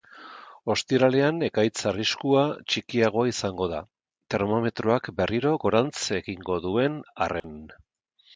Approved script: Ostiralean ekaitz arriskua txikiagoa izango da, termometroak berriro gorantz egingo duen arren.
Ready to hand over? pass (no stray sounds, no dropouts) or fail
fail